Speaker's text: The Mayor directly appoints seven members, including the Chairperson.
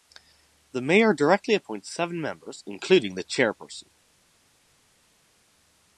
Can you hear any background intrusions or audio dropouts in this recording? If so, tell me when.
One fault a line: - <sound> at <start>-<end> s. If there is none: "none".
none